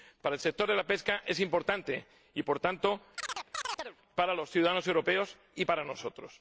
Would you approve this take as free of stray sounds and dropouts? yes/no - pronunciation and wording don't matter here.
no